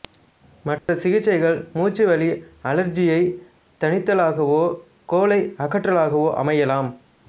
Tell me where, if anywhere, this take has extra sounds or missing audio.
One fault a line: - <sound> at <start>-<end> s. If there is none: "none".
- dropout at 0.8-0.9 s